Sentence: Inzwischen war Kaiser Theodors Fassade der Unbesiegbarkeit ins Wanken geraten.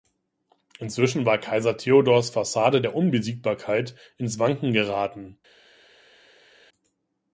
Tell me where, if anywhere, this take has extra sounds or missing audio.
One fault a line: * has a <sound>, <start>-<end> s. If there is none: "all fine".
all fine